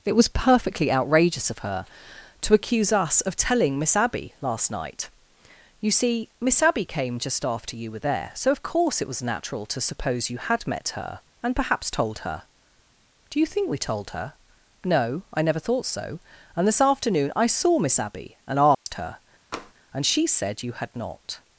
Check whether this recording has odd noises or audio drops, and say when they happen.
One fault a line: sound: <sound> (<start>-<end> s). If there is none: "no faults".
sound: dropout (18.7-18.9 s)
sound: tap (19.5-19.7 s)